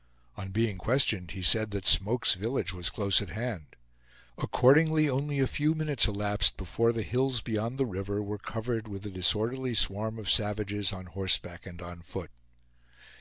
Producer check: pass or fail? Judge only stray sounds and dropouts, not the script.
pass